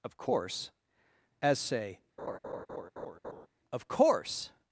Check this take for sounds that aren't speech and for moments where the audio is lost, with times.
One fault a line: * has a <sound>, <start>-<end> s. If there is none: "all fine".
* has a laugh, 2.2-3.5 s